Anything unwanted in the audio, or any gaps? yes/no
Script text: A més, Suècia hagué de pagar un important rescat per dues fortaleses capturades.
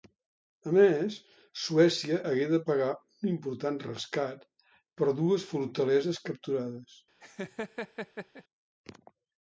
yes